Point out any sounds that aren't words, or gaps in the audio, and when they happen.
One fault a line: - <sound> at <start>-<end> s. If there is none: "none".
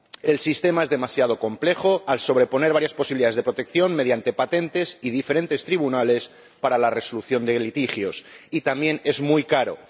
none